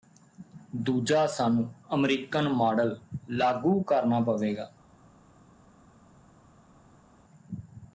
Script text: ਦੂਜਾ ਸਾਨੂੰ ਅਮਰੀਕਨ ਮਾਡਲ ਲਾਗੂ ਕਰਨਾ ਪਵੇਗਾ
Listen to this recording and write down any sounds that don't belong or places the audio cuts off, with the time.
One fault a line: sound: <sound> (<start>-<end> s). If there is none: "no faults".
no faults